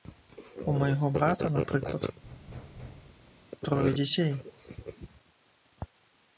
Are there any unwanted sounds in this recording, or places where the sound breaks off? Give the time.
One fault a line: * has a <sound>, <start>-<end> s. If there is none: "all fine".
* has a thud, 2.2-3.5 s